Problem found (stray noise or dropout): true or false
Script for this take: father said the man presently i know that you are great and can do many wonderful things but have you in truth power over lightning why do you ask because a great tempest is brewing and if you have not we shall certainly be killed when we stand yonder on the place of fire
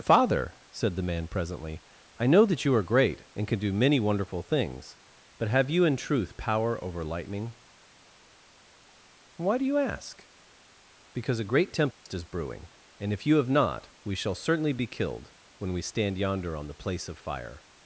true